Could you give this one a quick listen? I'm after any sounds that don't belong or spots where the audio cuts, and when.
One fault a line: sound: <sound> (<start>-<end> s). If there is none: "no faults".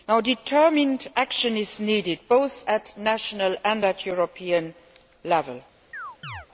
sound: chirp (5.9-6.5 s)